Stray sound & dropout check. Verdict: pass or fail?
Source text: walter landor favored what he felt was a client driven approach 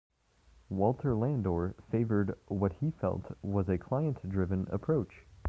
pass